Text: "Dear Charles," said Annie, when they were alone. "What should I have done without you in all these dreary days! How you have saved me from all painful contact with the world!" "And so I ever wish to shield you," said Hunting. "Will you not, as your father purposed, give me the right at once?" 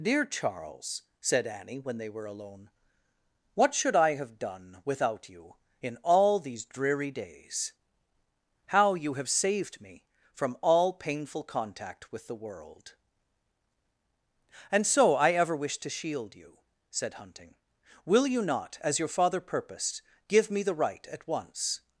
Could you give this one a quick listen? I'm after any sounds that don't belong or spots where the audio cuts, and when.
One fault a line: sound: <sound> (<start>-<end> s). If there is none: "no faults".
no faults